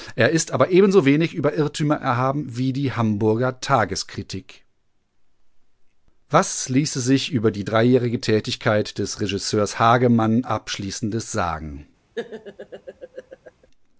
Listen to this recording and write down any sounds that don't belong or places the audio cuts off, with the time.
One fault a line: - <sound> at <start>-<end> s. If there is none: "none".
- laugh at 12.2-13.7 s